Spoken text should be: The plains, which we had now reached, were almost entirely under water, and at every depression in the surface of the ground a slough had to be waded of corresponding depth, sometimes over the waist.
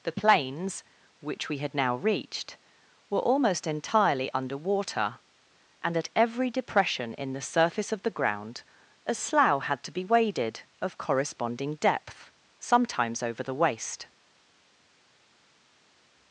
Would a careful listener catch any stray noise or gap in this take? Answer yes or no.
no